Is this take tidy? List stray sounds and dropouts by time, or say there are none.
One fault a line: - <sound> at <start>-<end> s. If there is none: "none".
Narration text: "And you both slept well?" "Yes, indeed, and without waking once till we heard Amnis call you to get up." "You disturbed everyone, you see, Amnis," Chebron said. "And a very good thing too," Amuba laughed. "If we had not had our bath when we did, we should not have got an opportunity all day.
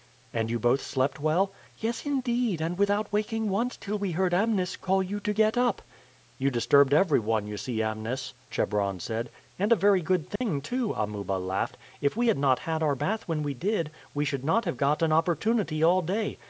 - dropout at 10.4-10.4 s